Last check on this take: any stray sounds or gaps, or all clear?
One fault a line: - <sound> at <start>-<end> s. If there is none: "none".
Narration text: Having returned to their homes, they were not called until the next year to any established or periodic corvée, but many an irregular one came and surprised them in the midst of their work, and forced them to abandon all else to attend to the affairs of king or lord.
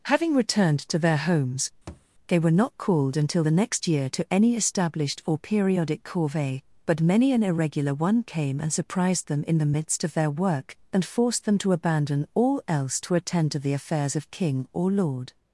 - thud at 1.9-2.1 s